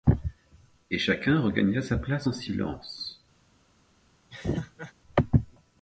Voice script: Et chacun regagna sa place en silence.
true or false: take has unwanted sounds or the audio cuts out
true